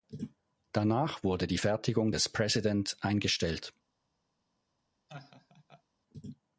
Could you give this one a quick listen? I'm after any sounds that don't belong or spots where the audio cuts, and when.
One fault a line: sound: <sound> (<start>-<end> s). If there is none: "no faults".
sound: laugh (5.1-5.8 s)